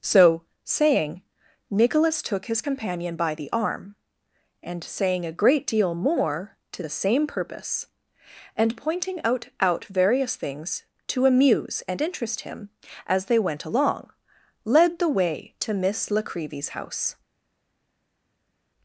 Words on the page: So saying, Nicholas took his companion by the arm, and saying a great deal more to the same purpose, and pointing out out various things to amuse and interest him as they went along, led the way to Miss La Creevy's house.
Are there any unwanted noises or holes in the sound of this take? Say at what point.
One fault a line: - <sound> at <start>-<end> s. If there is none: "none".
none